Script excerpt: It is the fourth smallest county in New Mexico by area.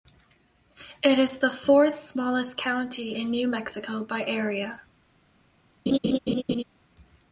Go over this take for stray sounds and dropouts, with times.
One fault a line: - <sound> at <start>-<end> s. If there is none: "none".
- laugh at 5.9-6.6 s